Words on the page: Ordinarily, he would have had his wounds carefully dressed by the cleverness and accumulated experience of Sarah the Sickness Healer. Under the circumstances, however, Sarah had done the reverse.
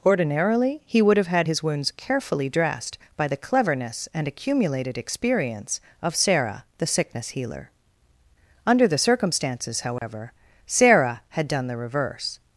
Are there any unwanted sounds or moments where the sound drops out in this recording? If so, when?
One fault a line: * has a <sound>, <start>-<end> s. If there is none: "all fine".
* has a dropout, 10.0-10.0 s